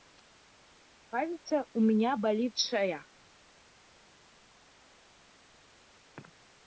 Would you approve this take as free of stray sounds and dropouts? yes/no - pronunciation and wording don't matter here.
yes